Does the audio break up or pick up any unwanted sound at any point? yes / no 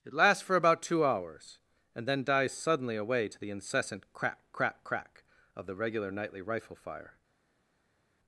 no